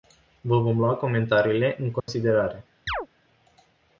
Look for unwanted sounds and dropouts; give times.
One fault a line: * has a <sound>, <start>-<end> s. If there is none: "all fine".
* has a dropout, 2.0-2.1 s
* has a chirp, 2.9-3.1 s